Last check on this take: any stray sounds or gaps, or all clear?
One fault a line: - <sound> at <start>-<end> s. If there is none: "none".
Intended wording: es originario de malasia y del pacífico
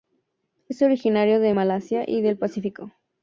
none